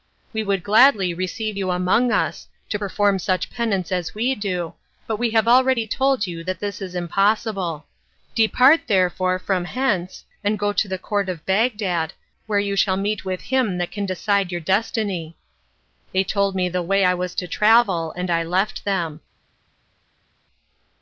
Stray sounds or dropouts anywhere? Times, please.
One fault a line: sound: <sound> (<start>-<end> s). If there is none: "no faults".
no faults